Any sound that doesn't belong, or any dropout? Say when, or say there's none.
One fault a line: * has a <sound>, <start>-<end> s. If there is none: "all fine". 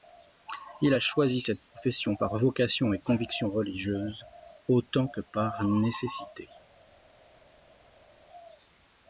all fine